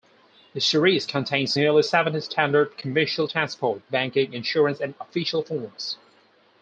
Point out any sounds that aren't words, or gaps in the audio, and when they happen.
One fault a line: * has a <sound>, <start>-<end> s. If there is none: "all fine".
all fine